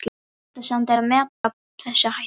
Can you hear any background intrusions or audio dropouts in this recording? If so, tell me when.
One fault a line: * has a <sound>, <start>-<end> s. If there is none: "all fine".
* has a dropout, 1.3-1.4 s